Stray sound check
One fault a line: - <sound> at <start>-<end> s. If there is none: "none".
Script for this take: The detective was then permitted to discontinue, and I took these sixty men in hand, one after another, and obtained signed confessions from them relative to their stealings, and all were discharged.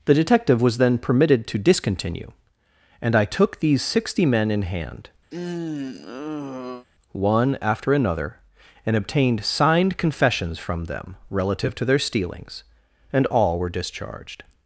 - sigh at 5.3-6.9 s